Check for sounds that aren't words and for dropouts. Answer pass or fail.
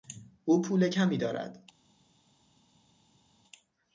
pass